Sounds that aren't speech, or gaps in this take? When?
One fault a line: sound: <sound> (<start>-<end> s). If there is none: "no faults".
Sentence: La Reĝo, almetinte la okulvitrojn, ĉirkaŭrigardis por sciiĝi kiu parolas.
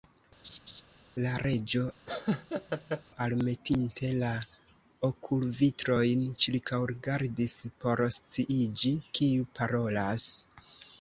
sound: laugh (0.4-0.8 s)
sound: laugh (2.1-3.0 s)